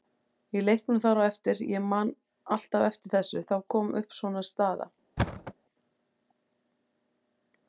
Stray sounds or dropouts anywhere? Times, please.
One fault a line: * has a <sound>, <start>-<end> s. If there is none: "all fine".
* has a thud, 5.2-5.5 s